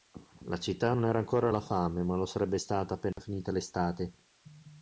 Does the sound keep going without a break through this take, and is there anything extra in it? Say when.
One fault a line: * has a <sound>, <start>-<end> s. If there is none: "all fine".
* has a dropout, 3.1-3.2 s